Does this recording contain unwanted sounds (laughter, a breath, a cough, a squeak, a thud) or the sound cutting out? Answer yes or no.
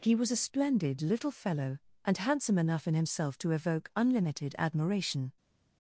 no